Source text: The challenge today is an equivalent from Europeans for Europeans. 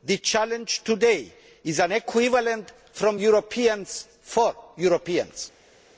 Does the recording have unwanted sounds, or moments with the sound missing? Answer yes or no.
no